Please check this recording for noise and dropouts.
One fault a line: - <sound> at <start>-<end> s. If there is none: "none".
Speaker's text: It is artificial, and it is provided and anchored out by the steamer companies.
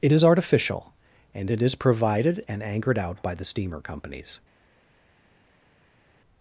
none